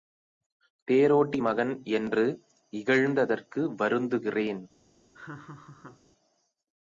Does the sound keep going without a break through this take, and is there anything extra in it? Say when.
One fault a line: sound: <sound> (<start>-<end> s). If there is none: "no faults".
sound: laugh (5.1-6.0 s)